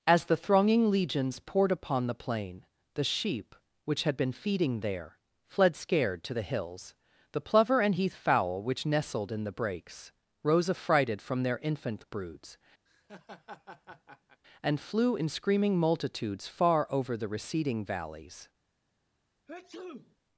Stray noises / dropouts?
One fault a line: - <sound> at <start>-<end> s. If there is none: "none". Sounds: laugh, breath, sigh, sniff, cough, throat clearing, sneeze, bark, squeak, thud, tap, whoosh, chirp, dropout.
- laugh at 12.9-14.4 s
- sneeze at 19.5-20.2 s